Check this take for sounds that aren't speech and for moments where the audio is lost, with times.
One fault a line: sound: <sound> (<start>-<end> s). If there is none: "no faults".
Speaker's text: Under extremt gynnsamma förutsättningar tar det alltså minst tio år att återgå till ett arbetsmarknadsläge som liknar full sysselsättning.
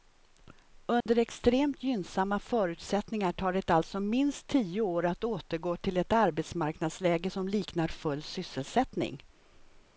sound: dropout (1.0-1.1 s)